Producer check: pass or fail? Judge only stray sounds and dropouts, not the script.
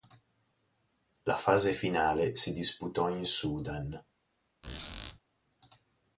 fail